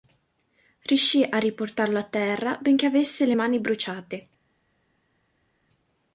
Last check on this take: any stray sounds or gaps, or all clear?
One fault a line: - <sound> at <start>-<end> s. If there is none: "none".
none